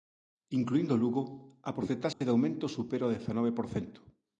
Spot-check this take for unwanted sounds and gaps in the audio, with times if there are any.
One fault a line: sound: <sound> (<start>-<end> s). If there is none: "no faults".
sound: dropout (2.1-2.2 s)